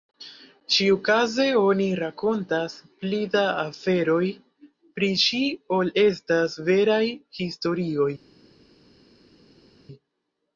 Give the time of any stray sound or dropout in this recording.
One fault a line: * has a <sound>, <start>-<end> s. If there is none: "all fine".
all fine